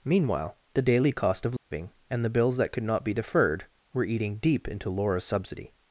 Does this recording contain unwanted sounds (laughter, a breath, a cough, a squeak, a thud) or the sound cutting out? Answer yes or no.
yes